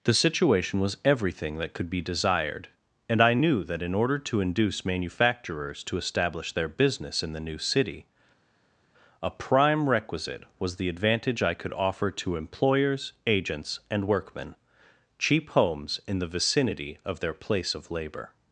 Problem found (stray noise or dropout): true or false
false